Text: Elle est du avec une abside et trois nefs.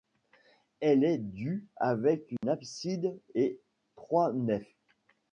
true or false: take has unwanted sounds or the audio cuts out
true